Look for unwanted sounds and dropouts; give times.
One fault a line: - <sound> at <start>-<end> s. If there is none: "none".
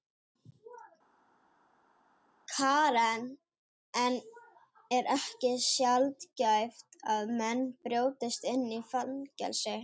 none